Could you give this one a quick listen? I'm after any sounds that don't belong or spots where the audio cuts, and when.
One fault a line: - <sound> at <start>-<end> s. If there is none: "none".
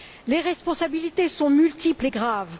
none